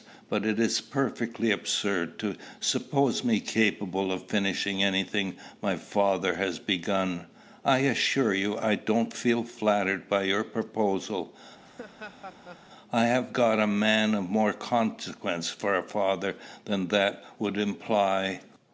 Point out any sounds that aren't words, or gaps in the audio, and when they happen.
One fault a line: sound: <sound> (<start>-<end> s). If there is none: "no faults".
sound: laugh (11.6-12.7 s)